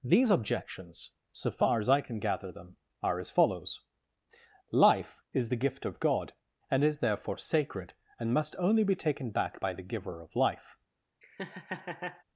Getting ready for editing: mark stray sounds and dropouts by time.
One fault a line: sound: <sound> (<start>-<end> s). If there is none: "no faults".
sound: laugh (11.2-12.2 s)